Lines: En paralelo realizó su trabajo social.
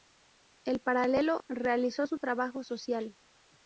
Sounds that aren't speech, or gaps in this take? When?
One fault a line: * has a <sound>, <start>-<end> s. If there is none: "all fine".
all fine